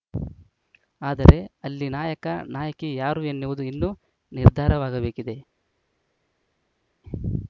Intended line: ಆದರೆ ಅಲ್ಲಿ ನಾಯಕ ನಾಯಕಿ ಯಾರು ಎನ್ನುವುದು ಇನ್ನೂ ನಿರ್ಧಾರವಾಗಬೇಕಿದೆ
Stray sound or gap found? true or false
false